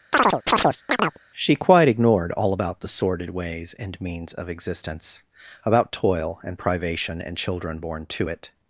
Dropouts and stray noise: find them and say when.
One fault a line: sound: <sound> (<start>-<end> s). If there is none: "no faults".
sound: chirp (0.1-1.2 s)